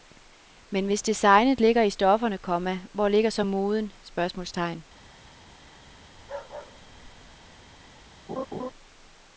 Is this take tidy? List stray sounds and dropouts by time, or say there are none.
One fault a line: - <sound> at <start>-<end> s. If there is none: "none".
- bark at 6.1-7.6 s
- laugh at 8.3-8.7 s